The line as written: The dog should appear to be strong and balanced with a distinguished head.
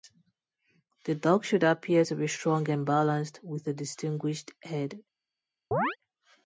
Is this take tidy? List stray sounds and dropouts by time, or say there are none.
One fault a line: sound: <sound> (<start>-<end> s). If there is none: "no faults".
sound: chirp (5.7-6.0 s)